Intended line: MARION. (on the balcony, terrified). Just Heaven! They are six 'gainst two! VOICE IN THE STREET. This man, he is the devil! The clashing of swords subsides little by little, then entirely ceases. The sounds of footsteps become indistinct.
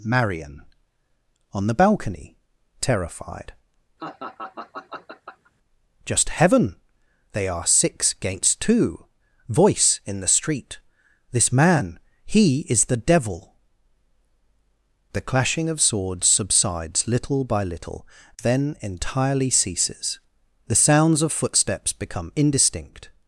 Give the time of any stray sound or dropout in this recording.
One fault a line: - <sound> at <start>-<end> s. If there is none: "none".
- laugh at 4.0-5.5 s